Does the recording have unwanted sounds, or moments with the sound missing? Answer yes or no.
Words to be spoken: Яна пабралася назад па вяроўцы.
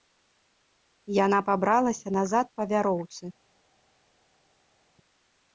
no